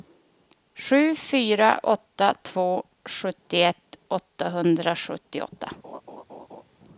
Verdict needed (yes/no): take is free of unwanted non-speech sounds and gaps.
no